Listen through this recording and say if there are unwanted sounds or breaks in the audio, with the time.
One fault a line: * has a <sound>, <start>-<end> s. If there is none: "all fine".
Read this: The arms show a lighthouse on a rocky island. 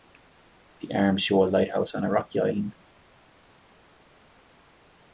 all fine